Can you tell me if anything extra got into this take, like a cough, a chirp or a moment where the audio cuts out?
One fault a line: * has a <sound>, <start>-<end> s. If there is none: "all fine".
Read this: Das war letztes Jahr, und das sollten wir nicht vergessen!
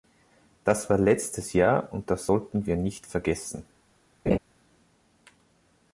* has a laugh, 4.3-4.4 s